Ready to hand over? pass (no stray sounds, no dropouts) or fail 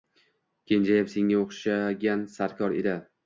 pass